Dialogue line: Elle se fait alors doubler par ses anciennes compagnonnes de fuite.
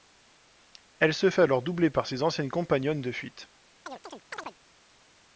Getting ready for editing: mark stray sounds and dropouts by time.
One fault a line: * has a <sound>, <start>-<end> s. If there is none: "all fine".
* has a chirp, 3.9-4.6 s